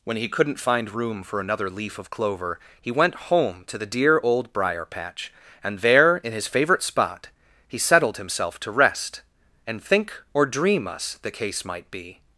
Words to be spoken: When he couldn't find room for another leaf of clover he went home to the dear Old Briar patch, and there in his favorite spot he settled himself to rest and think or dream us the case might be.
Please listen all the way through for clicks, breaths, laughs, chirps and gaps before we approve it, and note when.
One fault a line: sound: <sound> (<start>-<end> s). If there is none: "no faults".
no faults